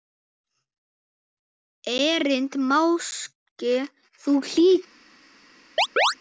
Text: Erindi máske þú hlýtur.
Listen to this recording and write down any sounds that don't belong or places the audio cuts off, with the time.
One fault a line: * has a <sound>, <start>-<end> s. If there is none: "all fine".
* has a chirp, 5.8-6.2 s